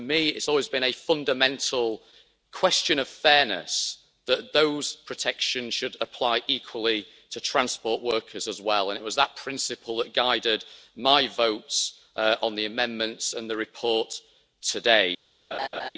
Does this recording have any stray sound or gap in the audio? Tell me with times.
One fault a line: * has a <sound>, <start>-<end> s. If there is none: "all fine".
* has a laugh, 15.5-15.9 s